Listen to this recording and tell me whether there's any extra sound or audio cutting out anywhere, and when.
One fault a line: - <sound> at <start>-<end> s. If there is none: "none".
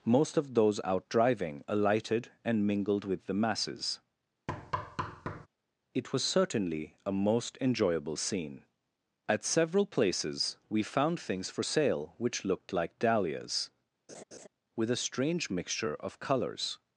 - thud at 4.5-5.5 s
- laugh at 14.1-14.5 s